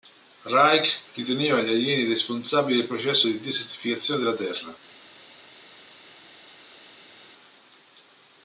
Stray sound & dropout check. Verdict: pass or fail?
pass